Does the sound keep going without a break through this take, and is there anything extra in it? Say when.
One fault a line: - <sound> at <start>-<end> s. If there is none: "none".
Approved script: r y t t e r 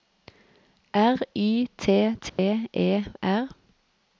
- dropout at 2.3-2.4 s